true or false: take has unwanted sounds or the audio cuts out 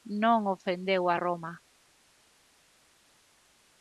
false